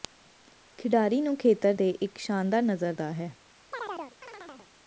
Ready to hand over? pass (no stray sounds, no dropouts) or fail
fail